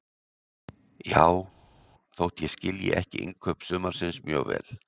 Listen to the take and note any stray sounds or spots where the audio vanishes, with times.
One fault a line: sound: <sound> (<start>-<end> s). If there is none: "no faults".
no faults